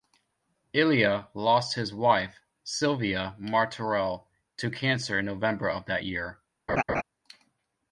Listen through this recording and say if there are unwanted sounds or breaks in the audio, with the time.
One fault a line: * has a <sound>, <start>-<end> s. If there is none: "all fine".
* has a laugh, 6.7-7.0 s